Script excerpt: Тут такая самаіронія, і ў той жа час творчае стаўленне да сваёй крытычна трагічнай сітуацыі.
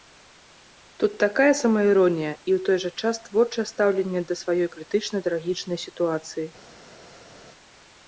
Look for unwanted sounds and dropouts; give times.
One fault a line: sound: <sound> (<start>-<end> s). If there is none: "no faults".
no faults